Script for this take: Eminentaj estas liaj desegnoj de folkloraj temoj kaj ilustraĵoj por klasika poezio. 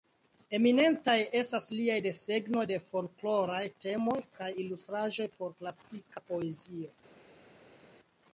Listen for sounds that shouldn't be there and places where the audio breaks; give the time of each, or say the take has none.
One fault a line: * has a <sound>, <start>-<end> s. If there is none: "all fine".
all fine